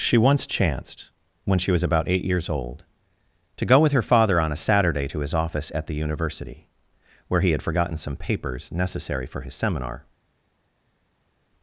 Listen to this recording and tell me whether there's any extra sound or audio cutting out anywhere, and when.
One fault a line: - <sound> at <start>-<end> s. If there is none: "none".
none